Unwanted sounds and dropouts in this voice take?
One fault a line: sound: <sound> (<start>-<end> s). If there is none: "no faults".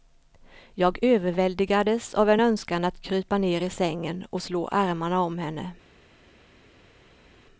no faults